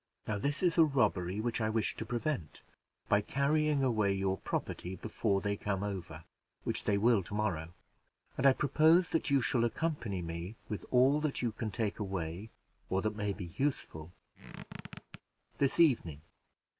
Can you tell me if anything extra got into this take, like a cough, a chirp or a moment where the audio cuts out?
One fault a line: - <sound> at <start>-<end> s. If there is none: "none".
- squeak at 14.3-15.2 s